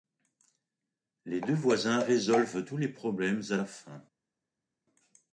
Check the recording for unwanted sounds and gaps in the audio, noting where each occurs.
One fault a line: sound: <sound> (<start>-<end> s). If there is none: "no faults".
no faults